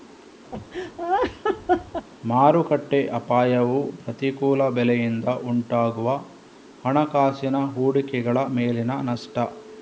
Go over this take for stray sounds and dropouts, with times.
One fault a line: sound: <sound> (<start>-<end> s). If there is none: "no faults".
sound: laugh (0.5-2.1 s)